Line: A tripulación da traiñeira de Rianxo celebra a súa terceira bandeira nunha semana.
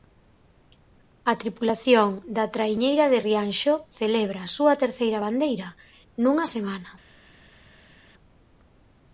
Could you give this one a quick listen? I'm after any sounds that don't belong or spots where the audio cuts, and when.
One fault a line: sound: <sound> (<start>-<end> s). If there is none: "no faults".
no faults